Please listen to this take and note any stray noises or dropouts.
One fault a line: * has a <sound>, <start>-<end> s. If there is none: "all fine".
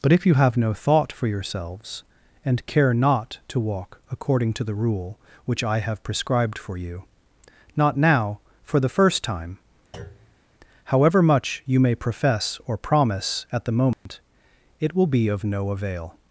* has a thud, 9.9-10.4 s
* has a dropout, 13.9-14.1 s